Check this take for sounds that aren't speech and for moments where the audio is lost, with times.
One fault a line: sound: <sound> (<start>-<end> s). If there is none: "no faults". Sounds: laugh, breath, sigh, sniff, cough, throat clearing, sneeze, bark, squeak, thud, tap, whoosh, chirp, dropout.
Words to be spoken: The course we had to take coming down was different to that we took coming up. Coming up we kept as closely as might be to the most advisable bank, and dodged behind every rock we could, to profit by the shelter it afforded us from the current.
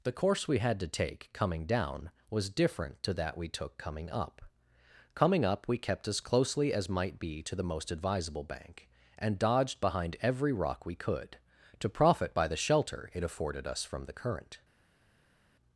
no faults